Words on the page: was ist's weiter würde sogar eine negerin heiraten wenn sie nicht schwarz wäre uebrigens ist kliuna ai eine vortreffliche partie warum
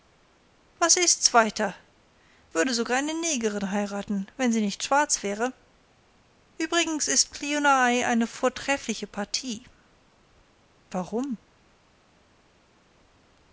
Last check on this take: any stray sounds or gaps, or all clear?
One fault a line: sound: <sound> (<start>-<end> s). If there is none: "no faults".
no faults